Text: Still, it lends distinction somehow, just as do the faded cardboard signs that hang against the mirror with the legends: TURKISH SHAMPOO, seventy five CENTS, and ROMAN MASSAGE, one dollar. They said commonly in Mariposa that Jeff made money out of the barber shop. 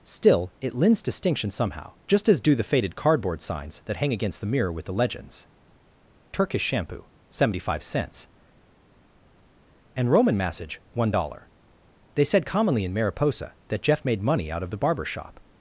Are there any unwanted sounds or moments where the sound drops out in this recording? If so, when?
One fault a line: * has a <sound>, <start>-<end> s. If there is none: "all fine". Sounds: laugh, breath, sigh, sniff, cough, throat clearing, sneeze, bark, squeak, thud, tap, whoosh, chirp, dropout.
all fine